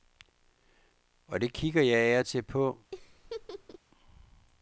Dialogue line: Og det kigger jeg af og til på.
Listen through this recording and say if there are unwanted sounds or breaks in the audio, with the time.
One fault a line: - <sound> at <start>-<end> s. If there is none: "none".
- laugh at 2.9-3.8 s